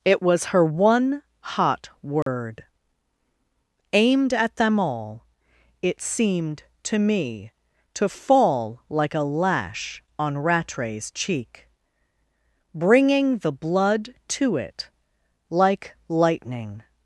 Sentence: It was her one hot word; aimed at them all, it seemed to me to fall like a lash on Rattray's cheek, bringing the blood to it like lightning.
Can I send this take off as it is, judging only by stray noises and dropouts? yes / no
no